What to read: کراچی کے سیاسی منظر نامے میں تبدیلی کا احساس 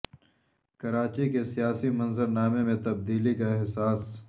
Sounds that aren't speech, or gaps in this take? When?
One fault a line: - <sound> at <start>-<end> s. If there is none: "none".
none